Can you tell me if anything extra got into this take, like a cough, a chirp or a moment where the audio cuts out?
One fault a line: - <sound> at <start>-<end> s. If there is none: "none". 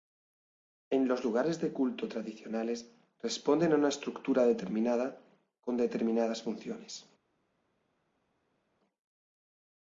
none